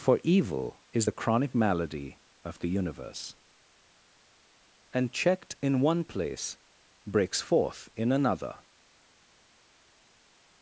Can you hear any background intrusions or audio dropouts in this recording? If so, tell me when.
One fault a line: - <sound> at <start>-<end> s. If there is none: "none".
none